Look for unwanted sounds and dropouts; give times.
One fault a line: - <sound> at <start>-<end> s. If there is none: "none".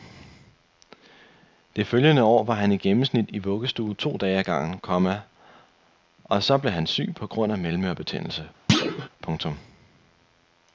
- thud at 8.7-9.1 s